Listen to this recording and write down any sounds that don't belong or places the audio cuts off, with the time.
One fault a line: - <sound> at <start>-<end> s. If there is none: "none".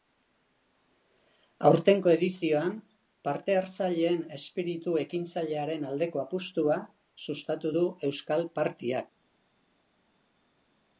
none